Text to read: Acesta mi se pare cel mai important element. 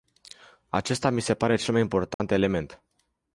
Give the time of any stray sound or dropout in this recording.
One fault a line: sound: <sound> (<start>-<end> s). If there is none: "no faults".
sound: dropout (2.1-2.2 s)